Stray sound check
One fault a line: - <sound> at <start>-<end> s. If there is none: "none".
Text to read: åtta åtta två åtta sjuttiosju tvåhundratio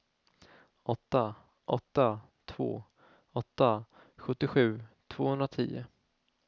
none